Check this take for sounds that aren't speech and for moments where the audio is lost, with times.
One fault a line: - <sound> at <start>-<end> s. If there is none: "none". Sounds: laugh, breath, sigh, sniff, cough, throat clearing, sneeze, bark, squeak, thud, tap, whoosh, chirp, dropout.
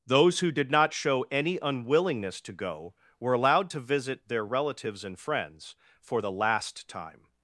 none